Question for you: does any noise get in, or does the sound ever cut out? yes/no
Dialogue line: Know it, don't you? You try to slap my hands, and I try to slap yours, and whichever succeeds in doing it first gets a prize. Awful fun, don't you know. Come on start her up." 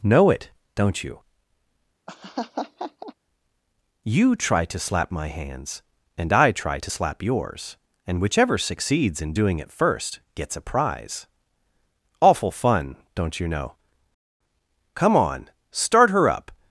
yes